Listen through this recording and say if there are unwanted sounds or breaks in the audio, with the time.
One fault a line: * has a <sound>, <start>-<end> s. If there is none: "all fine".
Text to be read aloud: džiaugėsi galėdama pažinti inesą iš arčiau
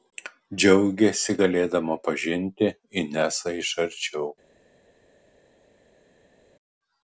all fine